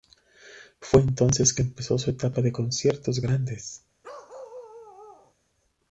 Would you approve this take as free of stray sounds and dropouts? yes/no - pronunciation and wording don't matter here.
no